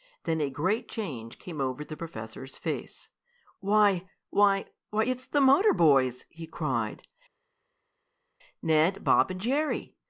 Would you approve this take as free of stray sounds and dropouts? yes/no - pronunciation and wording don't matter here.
yes